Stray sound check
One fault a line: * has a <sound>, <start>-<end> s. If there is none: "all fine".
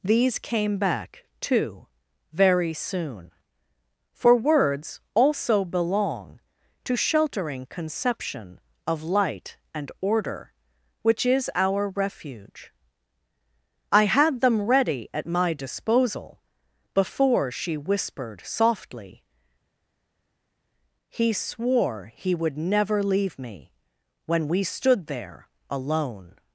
all fine